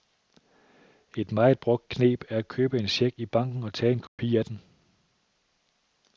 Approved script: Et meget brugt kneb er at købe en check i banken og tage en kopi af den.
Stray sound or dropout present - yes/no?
yes